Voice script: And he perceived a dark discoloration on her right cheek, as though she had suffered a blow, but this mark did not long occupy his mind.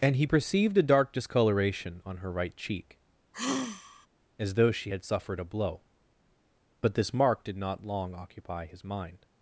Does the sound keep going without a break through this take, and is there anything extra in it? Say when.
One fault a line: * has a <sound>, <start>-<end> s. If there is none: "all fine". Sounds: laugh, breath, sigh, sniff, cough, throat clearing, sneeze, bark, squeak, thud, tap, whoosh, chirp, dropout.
* has a sigh, 3.3-4.1 s